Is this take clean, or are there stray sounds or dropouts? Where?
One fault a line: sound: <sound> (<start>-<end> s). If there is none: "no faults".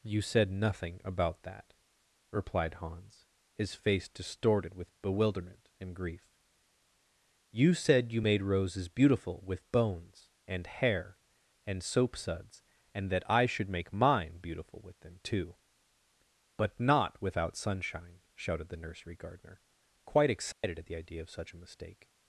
sound: dropout (20.5-20.6 s)